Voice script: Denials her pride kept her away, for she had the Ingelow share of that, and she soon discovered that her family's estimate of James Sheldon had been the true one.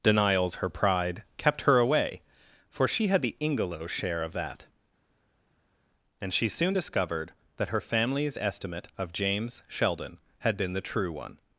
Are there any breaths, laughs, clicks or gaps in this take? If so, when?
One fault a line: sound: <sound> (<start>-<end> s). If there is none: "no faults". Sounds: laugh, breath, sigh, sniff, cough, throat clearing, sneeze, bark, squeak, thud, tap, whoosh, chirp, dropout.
no faults